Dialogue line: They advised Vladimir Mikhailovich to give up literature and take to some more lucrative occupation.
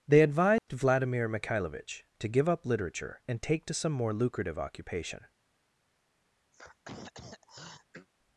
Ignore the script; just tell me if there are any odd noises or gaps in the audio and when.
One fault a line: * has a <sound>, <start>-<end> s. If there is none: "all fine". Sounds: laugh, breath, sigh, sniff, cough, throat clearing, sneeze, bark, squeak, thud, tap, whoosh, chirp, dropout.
* has a dropout, 0.6-0.7 s
* has a throat clearing, 6.5-8.1 s